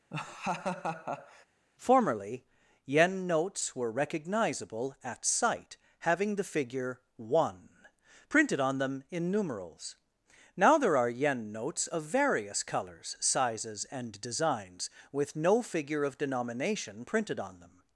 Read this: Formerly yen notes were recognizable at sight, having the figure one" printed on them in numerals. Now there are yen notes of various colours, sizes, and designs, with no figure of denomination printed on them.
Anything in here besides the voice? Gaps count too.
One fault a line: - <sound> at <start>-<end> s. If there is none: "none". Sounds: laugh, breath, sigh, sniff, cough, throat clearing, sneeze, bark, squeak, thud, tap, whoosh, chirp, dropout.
- laugh at 0.1-1.5 s